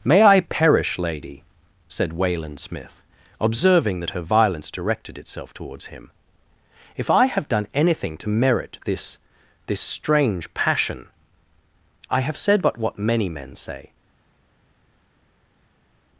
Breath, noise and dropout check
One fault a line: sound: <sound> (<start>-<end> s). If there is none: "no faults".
no faults